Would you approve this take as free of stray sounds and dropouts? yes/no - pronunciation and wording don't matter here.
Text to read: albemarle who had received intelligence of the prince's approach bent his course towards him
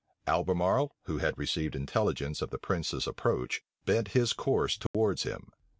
no